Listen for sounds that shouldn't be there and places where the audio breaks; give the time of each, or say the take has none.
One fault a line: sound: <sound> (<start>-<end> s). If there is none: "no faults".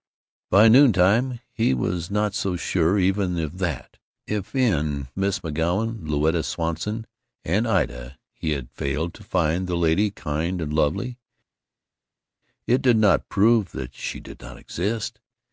no faults